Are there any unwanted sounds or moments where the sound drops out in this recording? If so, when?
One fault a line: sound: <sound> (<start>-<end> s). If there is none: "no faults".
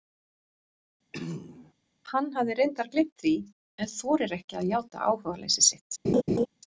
sound: throat clearing (1.1-1.7 s)
sound: laugh (6.0-6.5 s)